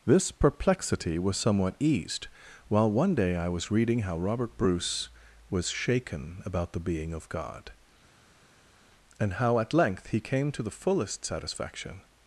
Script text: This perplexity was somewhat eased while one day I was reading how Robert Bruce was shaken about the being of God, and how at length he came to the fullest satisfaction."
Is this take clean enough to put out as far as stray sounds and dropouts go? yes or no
yes